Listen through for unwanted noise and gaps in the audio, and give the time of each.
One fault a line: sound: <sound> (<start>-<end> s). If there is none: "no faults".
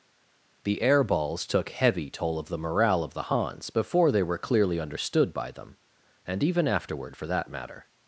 no faults